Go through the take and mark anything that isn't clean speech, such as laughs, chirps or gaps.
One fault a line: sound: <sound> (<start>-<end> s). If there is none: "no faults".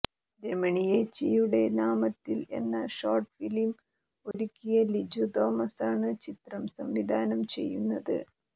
sound: dropout (4.3-4.3 s)